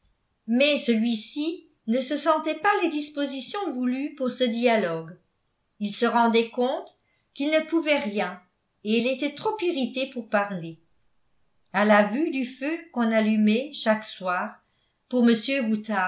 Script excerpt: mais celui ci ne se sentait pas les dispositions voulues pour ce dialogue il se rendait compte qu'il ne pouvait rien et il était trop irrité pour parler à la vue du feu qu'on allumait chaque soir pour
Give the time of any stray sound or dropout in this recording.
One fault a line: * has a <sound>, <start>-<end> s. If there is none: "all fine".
all fine